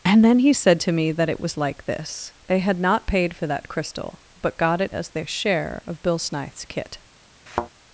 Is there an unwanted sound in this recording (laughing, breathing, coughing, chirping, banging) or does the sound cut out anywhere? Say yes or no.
yes